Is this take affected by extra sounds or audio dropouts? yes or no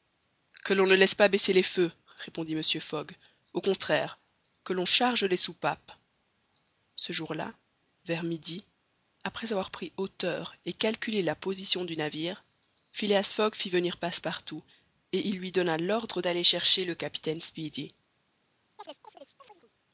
yes